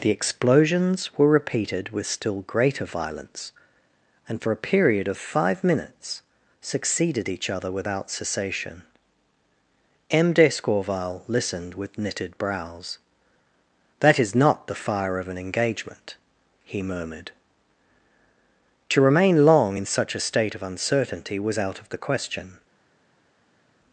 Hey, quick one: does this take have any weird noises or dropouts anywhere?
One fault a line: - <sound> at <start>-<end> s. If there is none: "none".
none